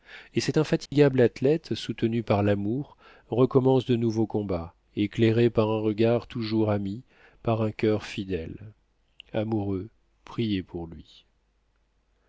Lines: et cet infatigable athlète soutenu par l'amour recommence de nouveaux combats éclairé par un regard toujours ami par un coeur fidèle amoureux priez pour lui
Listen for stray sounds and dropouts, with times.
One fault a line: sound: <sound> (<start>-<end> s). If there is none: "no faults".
sound: dropout (0.9-0.9 s)